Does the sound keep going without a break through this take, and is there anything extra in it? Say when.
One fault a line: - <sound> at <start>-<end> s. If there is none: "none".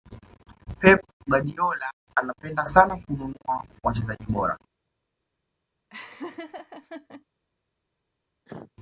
- laugh at 5.9-7.2 s
- cough at 8.5-8.7 s